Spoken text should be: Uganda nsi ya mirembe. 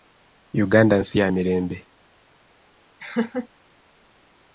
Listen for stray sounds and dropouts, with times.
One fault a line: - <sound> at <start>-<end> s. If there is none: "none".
- laugh at 3.0-3.5 s